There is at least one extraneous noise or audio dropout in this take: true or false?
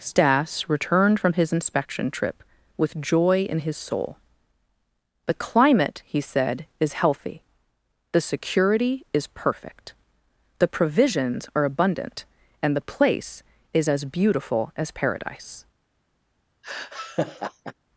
true